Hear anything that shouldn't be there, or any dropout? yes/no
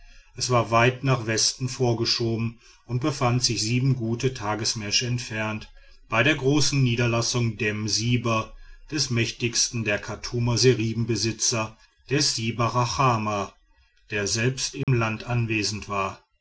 yes